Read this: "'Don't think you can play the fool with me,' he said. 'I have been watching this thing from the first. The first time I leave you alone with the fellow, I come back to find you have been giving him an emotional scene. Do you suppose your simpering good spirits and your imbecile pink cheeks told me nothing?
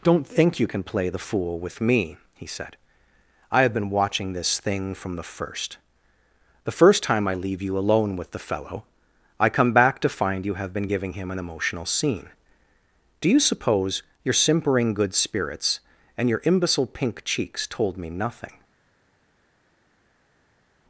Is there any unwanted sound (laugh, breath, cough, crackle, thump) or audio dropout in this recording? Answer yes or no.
no